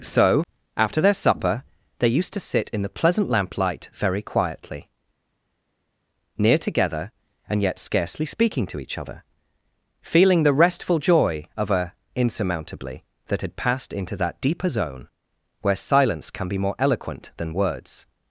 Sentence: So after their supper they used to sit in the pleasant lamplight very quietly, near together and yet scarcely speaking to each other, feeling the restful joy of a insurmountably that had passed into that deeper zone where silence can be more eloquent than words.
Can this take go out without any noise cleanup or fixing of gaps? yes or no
yes